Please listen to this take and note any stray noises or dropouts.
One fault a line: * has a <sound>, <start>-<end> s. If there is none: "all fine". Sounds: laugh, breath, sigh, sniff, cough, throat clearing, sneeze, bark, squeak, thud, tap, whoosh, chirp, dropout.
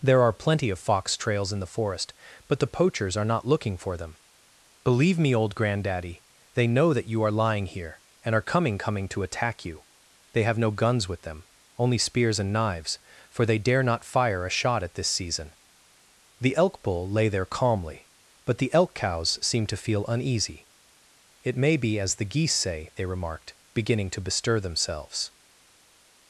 all fine